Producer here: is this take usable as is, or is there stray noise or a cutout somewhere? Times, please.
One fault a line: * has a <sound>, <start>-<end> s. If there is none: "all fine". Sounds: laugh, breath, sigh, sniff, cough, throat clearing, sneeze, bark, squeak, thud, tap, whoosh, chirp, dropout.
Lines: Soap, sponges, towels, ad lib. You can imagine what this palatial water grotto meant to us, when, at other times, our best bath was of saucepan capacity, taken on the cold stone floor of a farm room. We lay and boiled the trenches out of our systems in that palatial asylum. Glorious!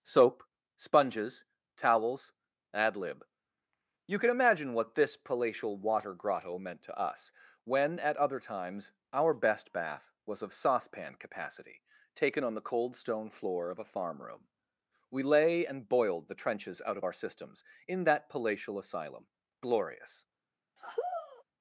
* has a sigh, 20.8-21.4 s